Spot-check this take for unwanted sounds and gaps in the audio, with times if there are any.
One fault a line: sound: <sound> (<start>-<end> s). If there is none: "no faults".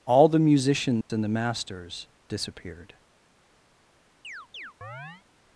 sound: dropout (1.0-1.1 s)
sound: chirp (4.2-5.2 s)